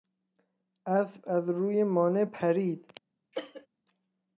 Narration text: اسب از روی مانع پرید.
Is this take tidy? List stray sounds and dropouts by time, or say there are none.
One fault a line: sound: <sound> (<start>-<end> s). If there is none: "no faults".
sound: cough (3.3-3.7 s)